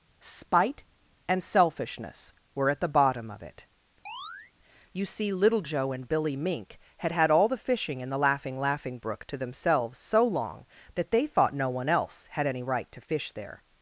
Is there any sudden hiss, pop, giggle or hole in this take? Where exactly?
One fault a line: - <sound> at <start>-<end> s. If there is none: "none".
- chirp at 4.1-4.5 s